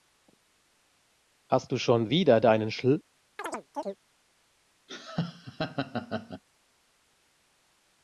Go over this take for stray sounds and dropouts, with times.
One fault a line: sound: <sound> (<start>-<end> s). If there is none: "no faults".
sound: chirp (3.4-4.0 s)
sound: laugh (4.9-6.4 s)